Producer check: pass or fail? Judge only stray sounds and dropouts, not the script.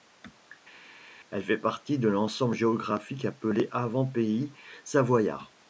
pass